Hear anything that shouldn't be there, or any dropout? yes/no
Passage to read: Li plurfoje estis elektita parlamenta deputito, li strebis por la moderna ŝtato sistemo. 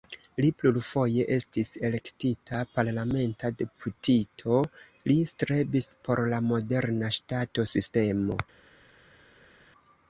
no